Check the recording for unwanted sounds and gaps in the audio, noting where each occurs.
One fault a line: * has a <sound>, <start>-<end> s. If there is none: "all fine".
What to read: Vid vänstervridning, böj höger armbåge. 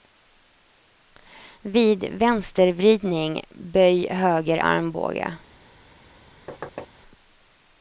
* has a thud, 6.5-6.9 s